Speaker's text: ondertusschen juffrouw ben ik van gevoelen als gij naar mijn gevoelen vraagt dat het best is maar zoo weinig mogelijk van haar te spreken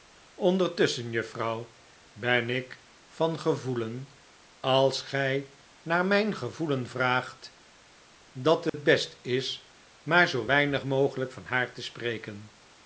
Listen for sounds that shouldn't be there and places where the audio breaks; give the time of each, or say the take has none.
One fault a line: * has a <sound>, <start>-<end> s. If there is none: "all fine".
* has a dropout, 8.7-8.7 s